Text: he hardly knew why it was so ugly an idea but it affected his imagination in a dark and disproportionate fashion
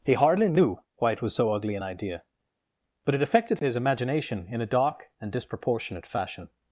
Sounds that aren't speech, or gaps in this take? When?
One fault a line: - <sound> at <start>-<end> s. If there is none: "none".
none